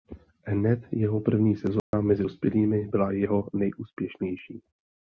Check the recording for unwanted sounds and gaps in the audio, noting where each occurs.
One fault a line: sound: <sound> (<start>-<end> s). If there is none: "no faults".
sound: dropout (1.8-1.9 s)